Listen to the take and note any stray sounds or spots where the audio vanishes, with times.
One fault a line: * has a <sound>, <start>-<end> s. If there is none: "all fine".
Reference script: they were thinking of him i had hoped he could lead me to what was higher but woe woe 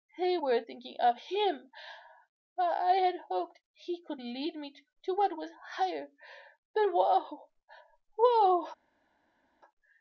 all fine